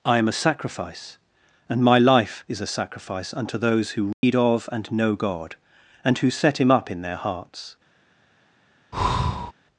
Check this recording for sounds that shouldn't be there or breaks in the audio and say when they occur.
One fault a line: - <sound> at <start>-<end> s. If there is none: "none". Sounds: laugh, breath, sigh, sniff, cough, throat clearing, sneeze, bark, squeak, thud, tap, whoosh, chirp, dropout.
- dropout at 4.1-4.2 s
- breath at 8.9-9.5 s